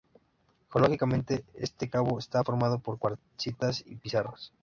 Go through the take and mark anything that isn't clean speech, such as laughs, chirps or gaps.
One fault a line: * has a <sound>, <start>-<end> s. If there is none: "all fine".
all fine